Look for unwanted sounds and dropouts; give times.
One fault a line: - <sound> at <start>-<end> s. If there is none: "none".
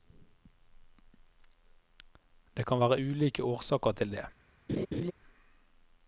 - laugh at 4.7-5.1 s